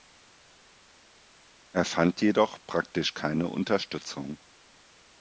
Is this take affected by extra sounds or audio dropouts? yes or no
no